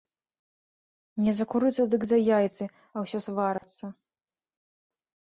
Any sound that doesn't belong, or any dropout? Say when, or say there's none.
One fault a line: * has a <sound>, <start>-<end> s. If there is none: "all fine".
* has a dropout, 3.6-3.6 s